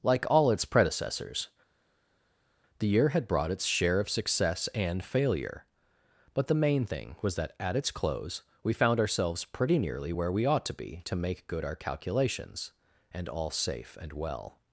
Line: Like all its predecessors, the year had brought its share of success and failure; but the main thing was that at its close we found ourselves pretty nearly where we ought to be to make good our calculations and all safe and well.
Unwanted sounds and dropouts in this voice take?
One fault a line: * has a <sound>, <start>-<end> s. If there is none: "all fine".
all fine